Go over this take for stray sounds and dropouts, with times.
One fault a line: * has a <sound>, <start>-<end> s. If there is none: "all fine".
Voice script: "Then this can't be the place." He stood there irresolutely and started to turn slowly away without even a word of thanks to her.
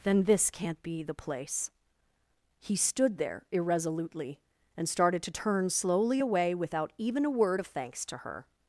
all fine